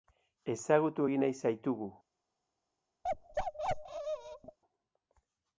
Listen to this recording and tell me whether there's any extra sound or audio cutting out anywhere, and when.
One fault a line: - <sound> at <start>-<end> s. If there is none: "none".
- bark at 3.0-4.6 s